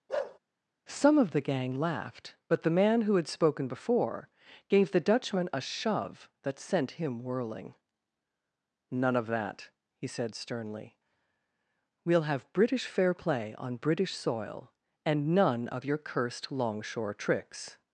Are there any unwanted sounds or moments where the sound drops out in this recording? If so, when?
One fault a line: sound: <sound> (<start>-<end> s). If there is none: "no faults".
sound: bark (0.1-0.4 s)